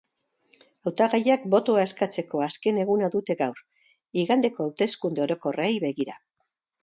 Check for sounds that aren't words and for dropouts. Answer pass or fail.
pass